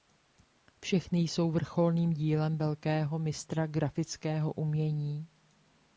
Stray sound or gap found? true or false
false